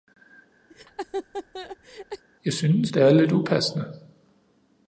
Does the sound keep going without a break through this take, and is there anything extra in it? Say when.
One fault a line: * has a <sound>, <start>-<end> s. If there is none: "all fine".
* has a laugh, 0.7-2.2 s